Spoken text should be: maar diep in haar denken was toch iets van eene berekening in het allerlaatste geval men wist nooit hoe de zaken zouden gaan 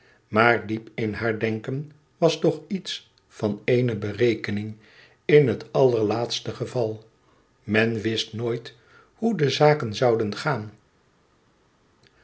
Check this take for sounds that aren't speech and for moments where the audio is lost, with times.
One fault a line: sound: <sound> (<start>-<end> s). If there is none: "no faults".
no faults